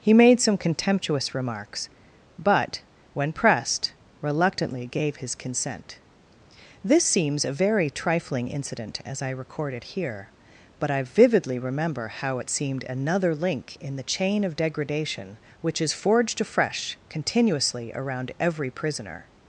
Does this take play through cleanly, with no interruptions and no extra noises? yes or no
yes